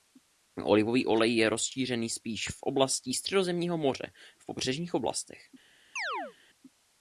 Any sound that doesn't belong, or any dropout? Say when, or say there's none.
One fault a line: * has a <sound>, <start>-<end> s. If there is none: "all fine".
* has a chirp, 6.0-6.3 s